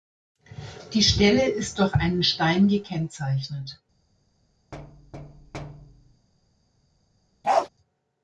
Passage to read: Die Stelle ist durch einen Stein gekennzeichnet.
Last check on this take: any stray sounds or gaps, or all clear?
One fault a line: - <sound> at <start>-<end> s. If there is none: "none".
- thud at 4.7-6.3 s
- bark at 7.4-7.7 s